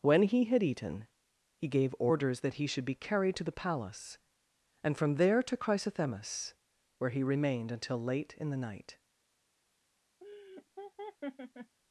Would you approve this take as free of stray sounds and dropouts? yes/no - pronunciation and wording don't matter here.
no